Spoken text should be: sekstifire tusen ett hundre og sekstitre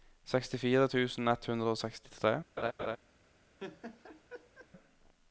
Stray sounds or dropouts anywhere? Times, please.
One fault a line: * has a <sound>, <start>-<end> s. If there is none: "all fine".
* has a laugh, 2.6-3.0 s
* has a laugh, 3.6-4.7 s